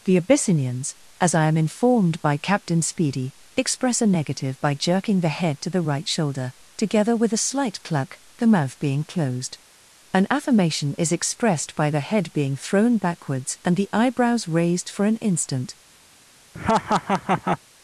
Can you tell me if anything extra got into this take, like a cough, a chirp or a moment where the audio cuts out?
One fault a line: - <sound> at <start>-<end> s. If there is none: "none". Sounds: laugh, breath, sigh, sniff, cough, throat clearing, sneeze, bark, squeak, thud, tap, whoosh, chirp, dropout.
- laugh at 16.5-17.6 s